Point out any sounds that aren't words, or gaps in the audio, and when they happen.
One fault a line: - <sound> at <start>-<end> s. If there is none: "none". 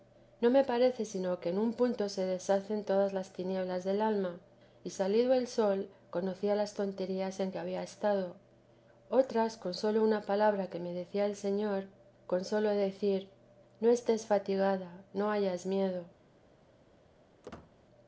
- squeak at 17.4-17.7 s